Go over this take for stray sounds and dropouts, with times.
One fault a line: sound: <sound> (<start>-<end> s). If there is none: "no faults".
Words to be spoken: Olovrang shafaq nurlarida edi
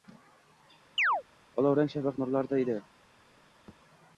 sound: chirp (1.0-1.2 s)
sound: thud (3.7-3.8 s)